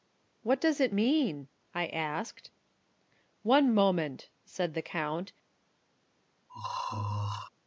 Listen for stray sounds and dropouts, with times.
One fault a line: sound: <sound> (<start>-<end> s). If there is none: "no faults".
sound: throat clearing (6.5-7.5 s)